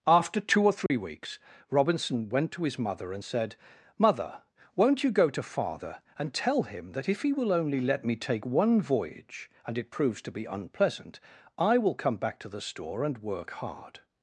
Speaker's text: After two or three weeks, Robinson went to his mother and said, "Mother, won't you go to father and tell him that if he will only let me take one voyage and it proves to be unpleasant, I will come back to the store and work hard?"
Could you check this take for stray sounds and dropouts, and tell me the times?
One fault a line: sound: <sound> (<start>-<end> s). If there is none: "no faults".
sound: dropout (0.9-0.9 s)